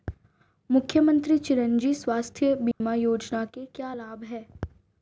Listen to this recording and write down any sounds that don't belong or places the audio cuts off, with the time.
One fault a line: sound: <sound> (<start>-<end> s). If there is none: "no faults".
sound: dropout (2.7-2.8 s)